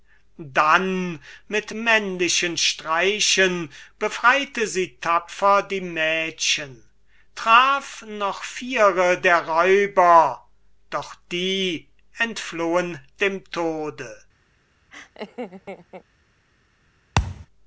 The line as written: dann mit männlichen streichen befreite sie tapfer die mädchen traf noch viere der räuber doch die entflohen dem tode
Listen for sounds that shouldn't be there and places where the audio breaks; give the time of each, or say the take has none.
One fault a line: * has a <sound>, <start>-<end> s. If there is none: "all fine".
* has a laugh, 14.9-16.0 s
* has a thud, 17.2-17.5 s